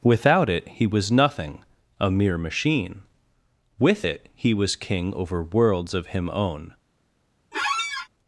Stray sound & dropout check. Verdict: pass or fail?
fail